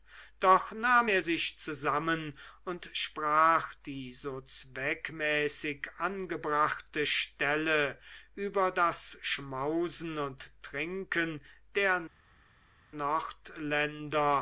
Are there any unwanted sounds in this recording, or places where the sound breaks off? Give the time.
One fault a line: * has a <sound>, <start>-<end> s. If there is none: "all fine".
all fine